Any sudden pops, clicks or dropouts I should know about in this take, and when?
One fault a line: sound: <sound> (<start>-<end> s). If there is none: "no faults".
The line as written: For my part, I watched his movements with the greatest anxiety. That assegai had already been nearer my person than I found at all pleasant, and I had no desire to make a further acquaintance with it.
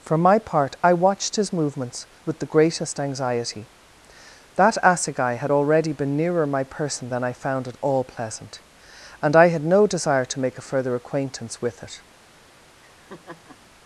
sound: laugh (12.8-13.6 s)